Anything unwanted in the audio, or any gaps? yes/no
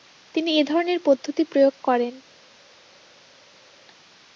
no